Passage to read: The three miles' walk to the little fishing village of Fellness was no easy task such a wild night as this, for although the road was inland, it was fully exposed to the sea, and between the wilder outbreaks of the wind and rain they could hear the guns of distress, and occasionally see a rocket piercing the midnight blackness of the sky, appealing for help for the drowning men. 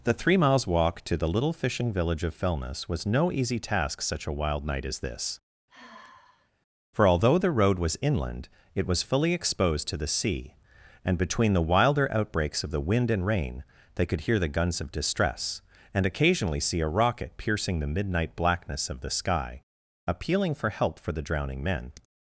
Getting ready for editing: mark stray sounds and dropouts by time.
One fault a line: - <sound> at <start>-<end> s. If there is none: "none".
- sigh at 5.7-6.5 s